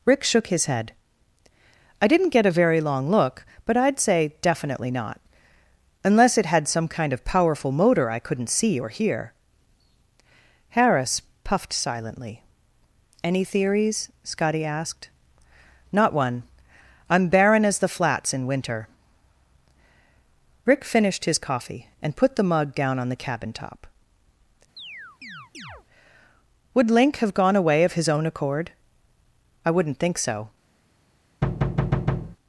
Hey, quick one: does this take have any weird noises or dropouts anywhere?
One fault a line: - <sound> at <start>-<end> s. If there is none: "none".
- chirp at 24.8-25.9 s
- thud at 31.4-32.4 s